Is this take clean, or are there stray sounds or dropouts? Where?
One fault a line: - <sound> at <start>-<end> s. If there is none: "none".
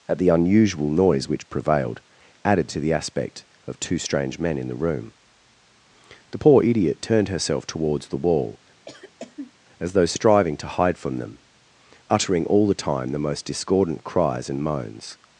- cough at 8.8-9.5 s